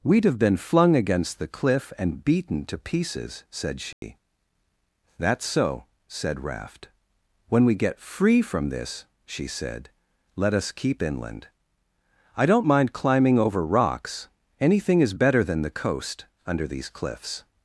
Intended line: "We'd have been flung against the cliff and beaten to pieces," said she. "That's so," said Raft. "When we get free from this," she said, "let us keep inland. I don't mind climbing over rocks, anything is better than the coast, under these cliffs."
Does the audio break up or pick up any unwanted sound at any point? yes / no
yes